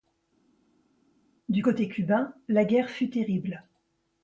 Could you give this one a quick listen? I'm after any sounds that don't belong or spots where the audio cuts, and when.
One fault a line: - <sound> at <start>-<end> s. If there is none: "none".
none